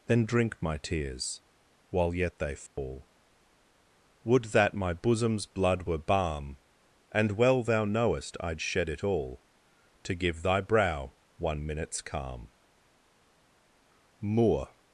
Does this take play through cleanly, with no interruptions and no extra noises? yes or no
no